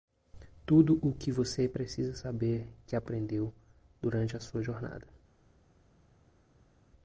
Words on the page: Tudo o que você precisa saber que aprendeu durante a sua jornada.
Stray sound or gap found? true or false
false